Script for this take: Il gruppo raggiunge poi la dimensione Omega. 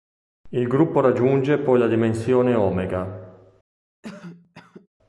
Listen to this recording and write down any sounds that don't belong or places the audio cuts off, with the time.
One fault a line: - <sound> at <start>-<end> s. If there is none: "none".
- cough at 4.0-4.9 s